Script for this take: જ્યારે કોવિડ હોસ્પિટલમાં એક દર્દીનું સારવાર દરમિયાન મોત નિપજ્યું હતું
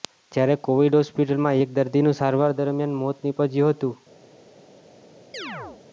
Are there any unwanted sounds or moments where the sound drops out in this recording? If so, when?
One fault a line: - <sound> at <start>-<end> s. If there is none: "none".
- chirp at 5.3-5.8 s